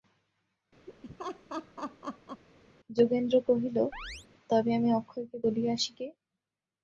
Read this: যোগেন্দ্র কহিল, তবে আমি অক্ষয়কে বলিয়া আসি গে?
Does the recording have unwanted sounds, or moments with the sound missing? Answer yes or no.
yes